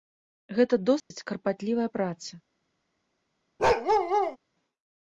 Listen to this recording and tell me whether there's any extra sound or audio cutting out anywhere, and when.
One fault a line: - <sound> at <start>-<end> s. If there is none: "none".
- dropout at 1.0-1.1 s
- bark at 3.6-4.4 s